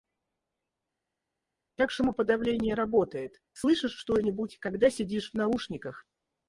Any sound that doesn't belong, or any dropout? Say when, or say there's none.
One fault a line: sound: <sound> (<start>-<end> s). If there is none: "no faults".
no faults